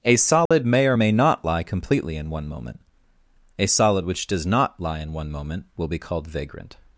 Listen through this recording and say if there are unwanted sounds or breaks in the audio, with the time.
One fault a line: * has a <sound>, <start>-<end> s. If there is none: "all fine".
* has a dropout, 0.5-0.5 s